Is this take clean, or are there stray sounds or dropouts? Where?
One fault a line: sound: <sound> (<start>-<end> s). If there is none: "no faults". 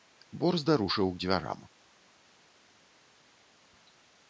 no faults